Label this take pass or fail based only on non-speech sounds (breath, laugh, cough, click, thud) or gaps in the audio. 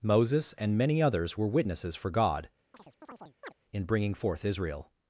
fail